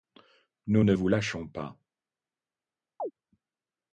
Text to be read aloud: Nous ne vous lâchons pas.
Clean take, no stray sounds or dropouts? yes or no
no